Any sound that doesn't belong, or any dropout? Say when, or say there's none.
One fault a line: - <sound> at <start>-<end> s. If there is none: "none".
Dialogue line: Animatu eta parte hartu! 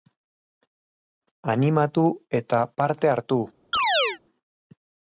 - chirp at 3.7-4.2 s